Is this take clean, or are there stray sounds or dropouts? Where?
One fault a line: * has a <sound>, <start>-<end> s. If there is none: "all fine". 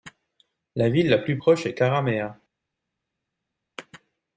all fine